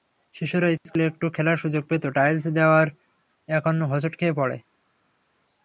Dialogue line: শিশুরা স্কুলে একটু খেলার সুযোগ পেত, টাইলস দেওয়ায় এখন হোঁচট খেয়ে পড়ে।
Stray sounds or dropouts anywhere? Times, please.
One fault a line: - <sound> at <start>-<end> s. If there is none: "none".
none